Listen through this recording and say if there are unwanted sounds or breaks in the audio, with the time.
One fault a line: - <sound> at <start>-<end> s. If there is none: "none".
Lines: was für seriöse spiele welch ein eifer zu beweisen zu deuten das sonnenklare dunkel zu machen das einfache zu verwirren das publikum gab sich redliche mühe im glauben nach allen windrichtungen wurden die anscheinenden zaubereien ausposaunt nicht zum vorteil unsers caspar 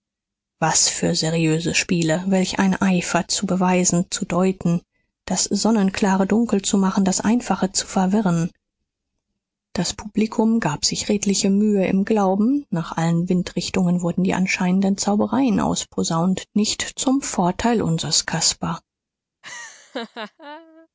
- laugh at 19.4-20.9 s